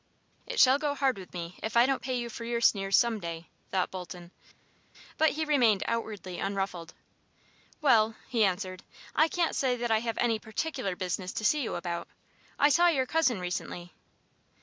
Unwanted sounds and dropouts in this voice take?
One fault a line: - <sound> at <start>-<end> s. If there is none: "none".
none